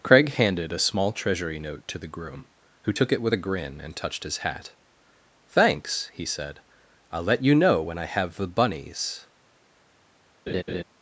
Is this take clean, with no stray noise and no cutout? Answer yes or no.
no